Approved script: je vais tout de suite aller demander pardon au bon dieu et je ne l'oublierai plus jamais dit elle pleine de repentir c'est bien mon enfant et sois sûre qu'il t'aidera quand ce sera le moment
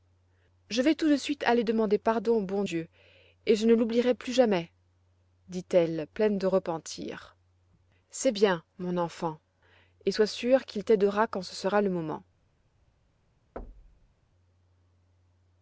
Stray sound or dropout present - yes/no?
yes